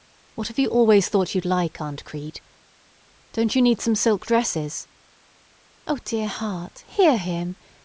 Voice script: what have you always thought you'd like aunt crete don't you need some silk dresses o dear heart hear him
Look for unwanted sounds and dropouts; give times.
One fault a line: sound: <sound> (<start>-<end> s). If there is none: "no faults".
no faults